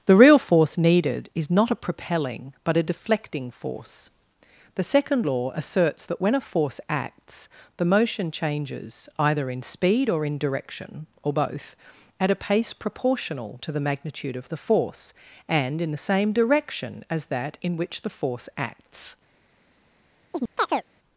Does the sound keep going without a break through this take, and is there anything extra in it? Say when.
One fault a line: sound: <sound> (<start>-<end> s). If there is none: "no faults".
sound: chirp (20.3-20.8 s)